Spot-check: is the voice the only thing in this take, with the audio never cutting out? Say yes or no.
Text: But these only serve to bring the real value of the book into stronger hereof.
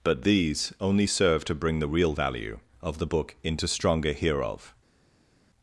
yes